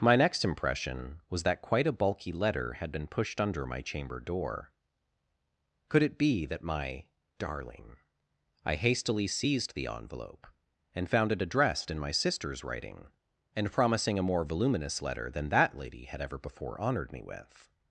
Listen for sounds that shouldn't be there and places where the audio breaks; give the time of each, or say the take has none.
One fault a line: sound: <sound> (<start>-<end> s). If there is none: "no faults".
no faults